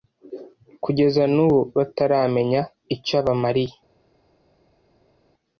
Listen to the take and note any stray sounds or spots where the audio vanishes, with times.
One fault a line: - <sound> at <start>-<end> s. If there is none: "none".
none